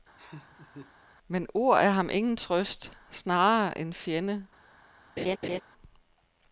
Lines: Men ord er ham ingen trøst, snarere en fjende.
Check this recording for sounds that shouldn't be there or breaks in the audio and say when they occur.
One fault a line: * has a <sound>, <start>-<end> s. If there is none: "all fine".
* has a laugh, 0.2-0.9 s
* has a laugh, 5.2-5.6 s